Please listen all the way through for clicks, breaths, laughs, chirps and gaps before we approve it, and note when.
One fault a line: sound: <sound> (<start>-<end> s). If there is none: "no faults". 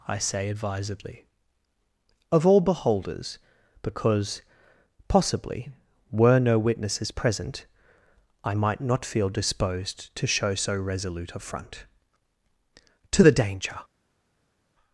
no faults